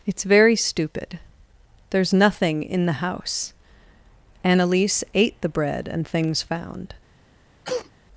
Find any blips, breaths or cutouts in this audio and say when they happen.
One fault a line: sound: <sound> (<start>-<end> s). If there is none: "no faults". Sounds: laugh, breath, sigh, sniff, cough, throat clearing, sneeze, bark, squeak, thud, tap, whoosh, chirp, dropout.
sound: cough (7.6-7.9 s)